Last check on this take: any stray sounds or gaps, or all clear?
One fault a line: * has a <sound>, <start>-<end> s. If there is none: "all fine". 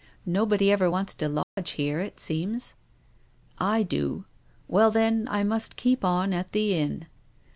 * has a dropout, 1.4-1.6 s